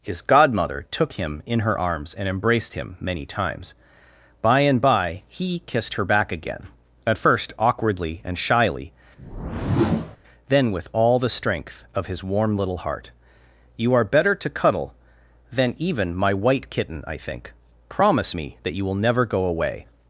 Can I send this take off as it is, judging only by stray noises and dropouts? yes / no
no